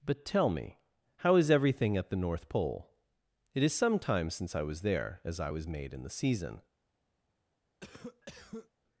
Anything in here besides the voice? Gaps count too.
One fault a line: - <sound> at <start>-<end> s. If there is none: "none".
- cough at 7.8-8.7 s